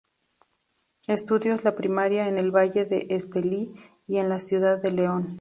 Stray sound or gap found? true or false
false